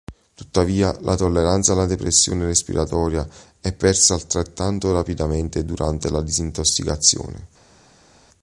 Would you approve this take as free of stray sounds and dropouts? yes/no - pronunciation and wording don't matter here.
yes